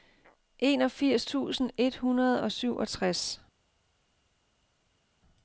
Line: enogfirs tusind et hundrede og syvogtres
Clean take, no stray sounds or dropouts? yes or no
yes